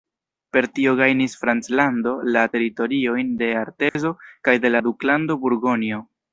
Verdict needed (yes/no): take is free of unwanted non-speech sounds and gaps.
no